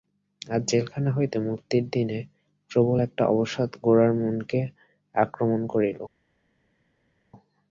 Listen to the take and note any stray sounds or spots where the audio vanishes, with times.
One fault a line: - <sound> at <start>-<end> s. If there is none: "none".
none